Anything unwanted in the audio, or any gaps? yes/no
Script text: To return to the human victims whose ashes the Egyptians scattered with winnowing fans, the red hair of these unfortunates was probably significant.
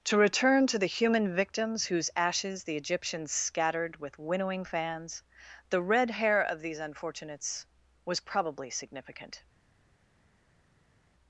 no